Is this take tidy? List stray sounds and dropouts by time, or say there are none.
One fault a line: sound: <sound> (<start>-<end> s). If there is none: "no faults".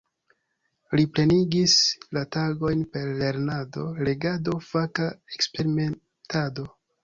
no faults